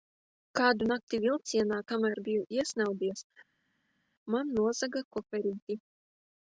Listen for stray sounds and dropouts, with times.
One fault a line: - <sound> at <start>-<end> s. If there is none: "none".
none